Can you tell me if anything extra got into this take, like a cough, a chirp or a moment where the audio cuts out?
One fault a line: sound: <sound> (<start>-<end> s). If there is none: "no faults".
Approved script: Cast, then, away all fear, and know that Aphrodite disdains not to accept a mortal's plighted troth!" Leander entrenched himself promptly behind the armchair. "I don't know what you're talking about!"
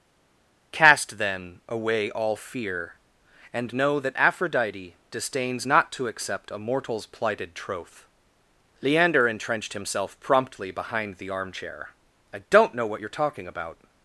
no faults